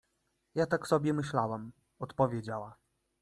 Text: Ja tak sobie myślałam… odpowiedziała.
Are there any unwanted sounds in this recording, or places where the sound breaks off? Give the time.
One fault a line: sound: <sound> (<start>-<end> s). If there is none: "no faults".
no faults